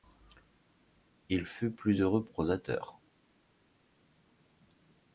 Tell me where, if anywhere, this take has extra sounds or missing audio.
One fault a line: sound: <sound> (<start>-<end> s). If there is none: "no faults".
no faults